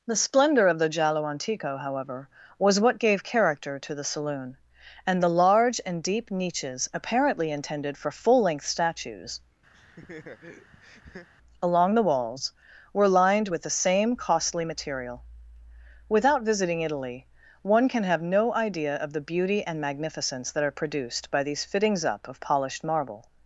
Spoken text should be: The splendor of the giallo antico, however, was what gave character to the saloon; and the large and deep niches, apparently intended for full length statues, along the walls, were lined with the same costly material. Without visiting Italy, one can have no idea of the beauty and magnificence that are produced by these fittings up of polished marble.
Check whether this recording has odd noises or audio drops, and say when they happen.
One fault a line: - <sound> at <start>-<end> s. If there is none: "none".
- laugh at 9.7-11.3 s